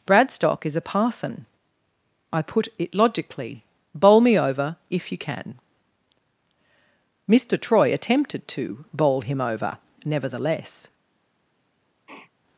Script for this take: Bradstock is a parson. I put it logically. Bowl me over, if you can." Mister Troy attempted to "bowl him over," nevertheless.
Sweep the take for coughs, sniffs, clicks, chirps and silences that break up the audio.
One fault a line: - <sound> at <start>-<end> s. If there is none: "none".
- sniff at 12.1-12.3 s